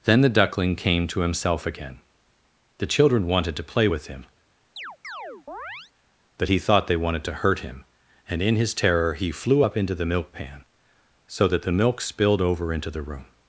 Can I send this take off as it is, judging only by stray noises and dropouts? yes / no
no